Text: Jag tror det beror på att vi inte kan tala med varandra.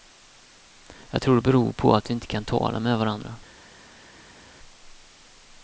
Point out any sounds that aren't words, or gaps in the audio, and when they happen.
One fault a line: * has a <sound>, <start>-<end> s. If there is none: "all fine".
all fine